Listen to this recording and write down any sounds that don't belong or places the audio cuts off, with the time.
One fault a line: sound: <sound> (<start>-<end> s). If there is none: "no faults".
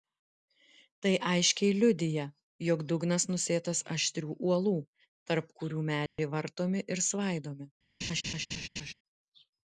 sound: dropout (6.1-6.2 s)
sound: laugh (8.0-8.9 s)